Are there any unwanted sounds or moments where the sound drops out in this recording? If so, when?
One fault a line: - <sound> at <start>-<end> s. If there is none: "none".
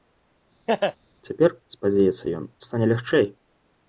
- laugh at 0.7-1.0 s